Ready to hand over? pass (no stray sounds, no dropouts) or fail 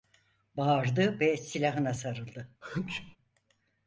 fail